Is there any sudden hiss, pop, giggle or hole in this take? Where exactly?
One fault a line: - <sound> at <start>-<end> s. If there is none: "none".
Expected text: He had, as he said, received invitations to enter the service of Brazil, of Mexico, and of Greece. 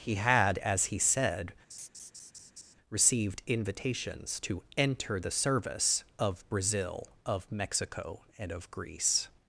- laugh at 1.7-2.8 s